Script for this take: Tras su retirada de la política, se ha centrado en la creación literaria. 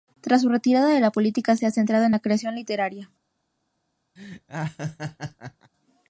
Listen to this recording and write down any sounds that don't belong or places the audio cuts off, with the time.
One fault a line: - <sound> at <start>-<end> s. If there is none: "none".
- laugh at 4.2-5.7 s